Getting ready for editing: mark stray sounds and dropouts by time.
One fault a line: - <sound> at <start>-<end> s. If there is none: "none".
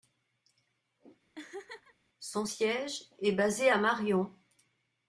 - laugh at 1.4-1.9 s